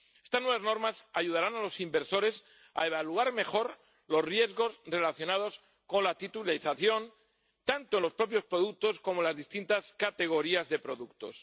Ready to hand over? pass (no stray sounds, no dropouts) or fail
pass